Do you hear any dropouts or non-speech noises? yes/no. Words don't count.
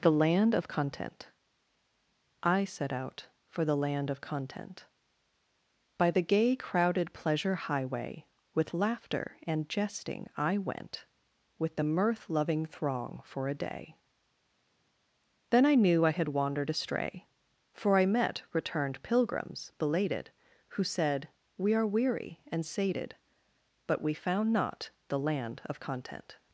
no